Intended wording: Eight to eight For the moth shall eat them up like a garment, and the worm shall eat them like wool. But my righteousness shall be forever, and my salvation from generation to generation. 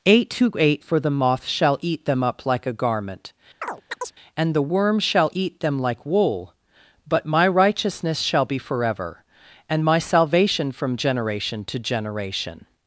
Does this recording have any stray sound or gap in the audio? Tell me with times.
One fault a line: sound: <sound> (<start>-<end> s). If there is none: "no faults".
sound: chirp (3.6-4.1 s)